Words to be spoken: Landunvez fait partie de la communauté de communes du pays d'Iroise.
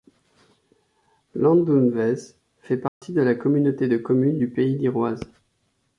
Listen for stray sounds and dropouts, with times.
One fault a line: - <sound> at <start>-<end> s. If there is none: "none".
- dropout at 2.9-3.0 s